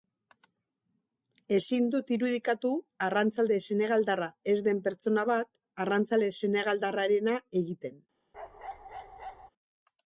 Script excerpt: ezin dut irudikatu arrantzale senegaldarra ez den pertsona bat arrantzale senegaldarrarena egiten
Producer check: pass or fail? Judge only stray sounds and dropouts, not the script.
fail